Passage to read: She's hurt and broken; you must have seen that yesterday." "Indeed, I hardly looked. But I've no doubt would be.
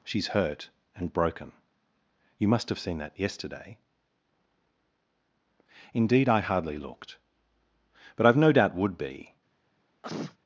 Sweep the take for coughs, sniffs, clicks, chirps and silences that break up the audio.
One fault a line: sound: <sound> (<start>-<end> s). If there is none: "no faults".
sound: sneeze (10.0-10.4 s)